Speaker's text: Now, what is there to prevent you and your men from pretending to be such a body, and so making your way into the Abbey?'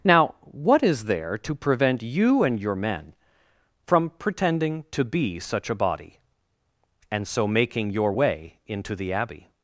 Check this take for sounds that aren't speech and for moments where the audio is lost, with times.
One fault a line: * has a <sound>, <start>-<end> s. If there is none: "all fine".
all fine